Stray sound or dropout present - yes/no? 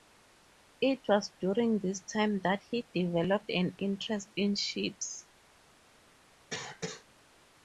yes